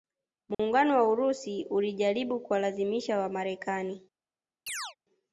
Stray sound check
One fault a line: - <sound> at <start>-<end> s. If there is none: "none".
- dropout at 0.5-0.6 s
- chirp at 4.7-5.0 s